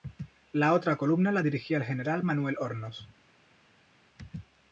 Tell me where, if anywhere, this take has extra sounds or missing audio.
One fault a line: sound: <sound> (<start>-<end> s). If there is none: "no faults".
no faults